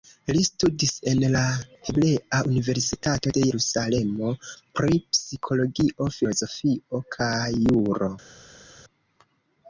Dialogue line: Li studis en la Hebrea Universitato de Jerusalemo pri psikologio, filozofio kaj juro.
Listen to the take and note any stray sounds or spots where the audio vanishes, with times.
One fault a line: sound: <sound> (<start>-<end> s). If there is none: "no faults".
no faults